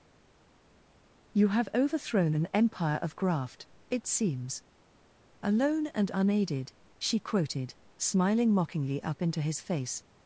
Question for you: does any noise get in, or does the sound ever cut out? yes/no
no